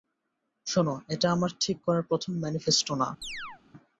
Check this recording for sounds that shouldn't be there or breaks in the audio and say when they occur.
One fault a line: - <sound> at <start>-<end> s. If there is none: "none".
- chirp at 3.2-3.6 s